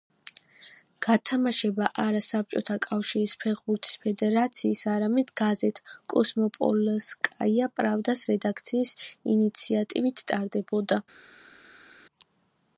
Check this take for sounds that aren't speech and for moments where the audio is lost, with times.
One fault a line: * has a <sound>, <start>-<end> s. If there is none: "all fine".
all fine